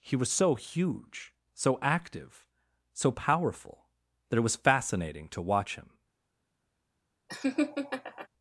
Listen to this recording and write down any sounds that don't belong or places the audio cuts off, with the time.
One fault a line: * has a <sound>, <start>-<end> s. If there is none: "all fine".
* has a laugh, 7.3-8.3 s